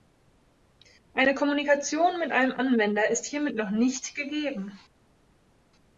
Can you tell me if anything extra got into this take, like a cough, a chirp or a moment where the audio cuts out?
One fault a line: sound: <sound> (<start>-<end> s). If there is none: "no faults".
no faults